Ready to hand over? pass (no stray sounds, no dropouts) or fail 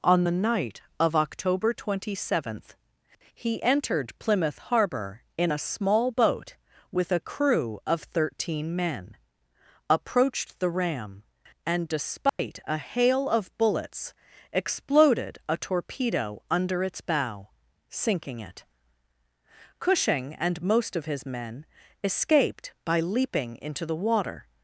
fail